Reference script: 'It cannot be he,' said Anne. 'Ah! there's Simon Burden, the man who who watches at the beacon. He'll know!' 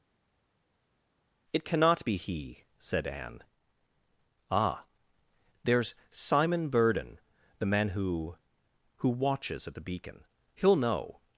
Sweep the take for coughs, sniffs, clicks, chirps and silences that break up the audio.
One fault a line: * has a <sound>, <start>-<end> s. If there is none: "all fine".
all fine